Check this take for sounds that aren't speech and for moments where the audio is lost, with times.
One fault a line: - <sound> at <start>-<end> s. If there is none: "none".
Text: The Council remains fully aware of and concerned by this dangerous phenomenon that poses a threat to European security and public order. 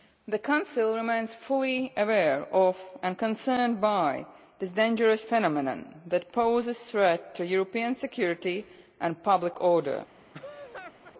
- laugh at 10.3-11.1 s